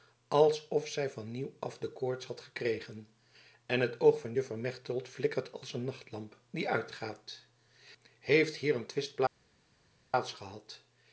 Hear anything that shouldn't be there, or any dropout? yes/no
no